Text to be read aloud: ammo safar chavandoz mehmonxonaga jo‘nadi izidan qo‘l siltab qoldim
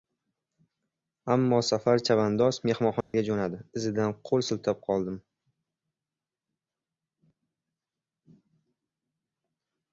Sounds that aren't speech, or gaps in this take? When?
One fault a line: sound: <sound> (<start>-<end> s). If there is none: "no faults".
sound: dropout (3.0-3.1 s)